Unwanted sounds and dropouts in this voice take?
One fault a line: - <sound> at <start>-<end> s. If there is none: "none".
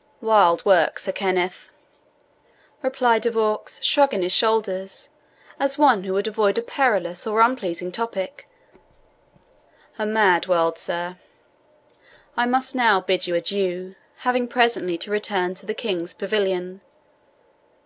none